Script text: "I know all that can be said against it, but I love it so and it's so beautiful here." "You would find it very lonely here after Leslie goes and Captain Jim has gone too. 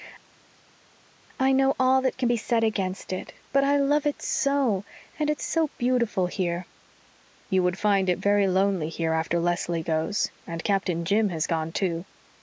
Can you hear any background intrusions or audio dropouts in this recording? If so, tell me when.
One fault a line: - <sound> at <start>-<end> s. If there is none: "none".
none